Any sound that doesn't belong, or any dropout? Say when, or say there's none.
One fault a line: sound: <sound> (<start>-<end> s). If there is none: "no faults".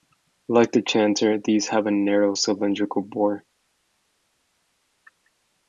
no faults